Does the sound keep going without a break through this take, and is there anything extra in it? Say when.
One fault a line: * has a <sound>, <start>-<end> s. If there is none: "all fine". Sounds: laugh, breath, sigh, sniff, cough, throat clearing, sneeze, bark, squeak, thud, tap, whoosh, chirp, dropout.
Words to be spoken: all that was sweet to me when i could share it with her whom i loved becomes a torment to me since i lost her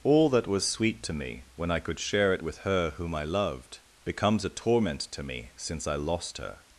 all fine